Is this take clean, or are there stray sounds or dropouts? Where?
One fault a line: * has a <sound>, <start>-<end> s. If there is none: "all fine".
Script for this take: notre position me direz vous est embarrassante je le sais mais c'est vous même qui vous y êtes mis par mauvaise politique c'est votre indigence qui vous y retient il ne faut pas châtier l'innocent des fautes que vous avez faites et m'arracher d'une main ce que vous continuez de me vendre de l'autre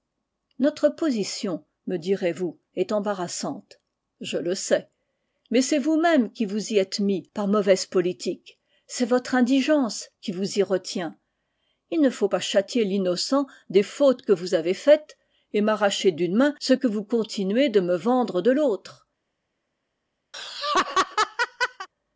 * has a laugh, 20.3-21.9 s